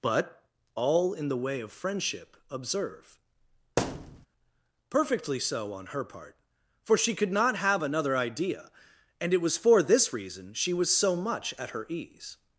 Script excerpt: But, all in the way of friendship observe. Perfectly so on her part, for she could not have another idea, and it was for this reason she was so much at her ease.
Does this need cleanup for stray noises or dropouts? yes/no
yes